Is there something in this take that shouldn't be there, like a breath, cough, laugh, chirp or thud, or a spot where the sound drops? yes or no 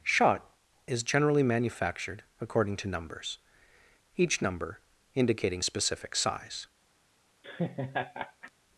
yes